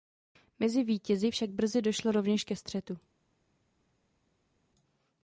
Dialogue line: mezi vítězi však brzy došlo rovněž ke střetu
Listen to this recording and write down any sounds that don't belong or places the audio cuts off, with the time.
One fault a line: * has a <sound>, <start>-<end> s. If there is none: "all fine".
all fine